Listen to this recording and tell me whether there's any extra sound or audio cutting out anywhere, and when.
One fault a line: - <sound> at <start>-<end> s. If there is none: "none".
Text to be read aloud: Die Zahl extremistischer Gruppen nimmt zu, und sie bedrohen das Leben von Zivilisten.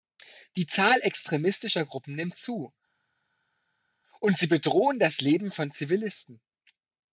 none